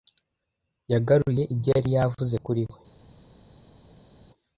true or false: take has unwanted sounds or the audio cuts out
false